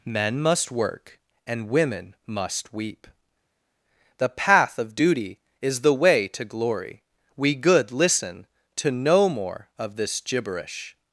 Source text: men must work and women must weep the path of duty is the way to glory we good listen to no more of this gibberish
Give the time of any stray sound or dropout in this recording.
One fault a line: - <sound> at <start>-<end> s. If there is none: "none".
none